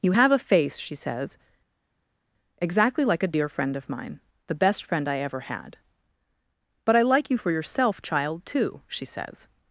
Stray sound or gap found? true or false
false